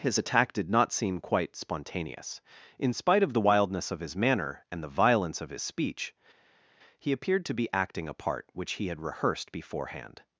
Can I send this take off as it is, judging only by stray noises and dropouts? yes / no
yes